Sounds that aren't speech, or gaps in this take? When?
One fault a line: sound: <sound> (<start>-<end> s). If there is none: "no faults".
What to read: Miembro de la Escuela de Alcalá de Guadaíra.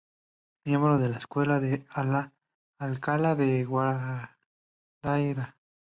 no faults